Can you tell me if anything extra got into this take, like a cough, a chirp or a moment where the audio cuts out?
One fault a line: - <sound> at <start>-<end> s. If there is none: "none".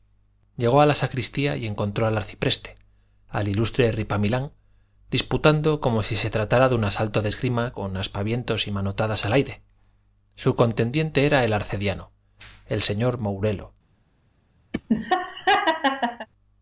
- laugh at 14.7-16.3 s